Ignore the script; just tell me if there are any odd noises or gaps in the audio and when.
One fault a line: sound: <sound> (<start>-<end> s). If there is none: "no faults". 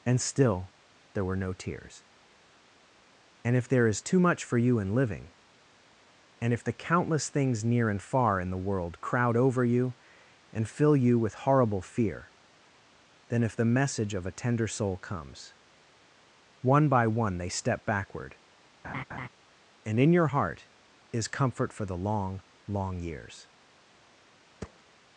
sound: laugh (18.8-19.3 s)
sound: thud (24.6-24.8 s)